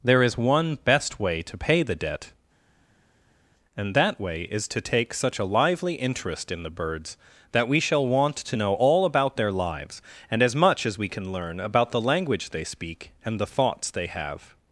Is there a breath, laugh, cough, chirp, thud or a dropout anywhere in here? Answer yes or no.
no